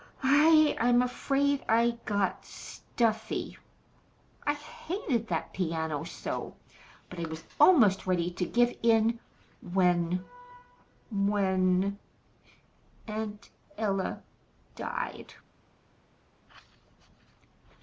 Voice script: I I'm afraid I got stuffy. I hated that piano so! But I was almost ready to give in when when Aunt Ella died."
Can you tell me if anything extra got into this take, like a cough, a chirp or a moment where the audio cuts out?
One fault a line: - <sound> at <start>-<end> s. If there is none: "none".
none